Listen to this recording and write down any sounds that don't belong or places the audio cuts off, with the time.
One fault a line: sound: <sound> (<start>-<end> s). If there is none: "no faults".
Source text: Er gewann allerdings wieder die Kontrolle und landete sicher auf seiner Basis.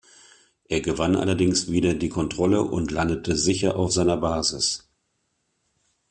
no faults